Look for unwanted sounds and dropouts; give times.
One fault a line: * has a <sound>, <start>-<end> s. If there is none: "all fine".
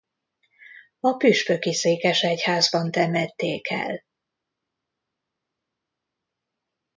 all fine